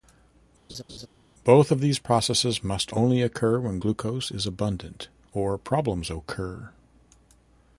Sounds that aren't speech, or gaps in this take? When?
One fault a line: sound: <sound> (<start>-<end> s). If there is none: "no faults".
sound: laugh (0.7-1.1 s)